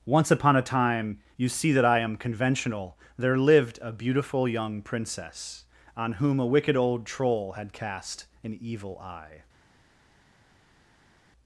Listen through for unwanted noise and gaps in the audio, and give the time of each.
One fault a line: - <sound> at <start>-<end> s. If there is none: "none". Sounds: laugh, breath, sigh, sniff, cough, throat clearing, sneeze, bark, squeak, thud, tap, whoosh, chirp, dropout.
none